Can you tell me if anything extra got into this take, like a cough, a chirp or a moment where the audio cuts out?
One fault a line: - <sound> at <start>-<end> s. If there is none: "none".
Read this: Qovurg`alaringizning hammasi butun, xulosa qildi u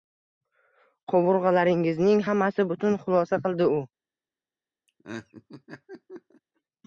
- laugh at 4.9-6.4 s